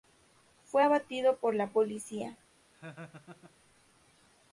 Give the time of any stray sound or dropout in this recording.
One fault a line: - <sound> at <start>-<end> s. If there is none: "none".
- laugh at 2.7-3.6 s